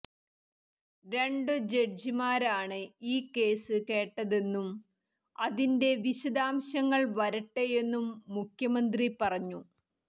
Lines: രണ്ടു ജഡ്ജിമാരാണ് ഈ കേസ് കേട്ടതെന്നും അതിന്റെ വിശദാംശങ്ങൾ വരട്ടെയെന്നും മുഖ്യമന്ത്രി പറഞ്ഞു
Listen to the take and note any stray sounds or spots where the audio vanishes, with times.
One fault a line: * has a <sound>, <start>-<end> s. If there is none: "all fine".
all fine